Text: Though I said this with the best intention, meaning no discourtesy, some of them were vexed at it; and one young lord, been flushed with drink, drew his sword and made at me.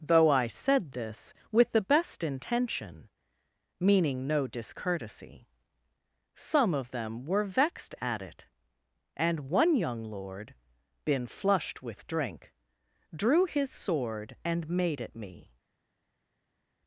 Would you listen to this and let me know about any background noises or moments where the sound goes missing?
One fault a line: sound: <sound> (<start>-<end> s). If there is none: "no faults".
no faults